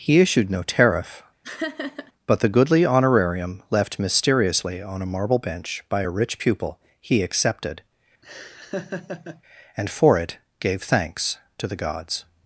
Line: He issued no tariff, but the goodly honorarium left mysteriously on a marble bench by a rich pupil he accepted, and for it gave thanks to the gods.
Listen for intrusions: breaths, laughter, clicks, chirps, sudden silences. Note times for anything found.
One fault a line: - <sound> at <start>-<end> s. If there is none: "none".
- laugh at 1.4-2.1 s
- laugh at 8.2-9.4 s